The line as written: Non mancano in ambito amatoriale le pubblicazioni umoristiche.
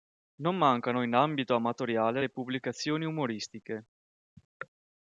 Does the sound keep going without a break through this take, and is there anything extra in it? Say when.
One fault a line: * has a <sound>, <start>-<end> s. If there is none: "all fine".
all fine